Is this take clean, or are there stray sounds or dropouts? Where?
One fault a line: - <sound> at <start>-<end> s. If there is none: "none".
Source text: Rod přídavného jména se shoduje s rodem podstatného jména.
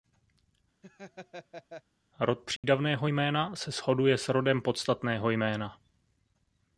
- laugh at 0.8-1.8 s
- dropout at 2.6-2.6 s